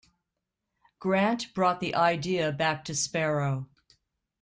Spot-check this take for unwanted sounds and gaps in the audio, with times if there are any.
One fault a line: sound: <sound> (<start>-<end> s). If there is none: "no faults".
no faults